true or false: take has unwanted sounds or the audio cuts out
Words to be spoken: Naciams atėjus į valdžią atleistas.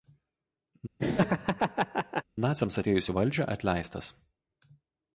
true